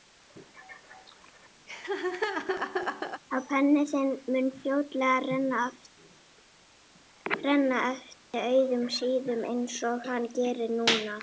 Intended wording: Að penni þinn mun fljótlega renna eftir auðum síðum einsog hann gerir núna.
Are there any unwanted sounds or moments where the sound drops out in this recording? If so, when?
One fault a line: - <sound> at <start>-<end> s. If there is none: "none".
- laugh at 1.7-3.2 s
- dropout at 8.2-8.3 s